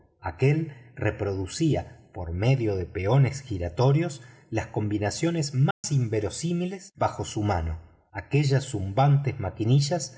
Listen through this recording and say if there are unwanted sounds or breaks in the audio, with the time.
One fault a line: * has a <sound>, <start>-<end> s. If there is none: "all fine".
* has a dropout, 5.7-5.8 s